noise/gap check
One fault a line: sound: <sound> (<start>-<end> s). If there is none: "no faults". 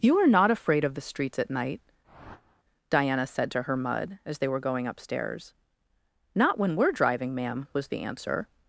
sound: whoosh (2.0-2.6 s)